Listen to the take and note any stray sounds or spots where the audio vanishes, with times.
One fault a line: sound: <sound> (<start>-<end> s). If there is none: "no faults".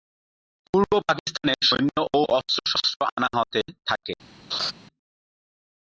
sound: laugh (4.5-4.7 s)